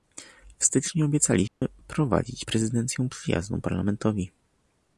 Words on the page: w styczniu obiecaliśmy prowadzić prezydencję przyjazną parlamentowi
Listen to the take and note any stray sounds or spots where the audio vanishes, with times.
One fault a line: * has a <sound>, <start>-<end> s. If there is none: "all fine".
* has a dropout, 1.5-1.6 s